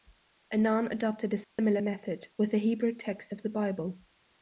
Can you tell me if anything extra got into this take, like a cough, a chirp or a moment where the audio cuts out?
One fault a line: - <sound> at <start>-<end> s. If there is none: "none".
- dropout at 1.4-1.6 s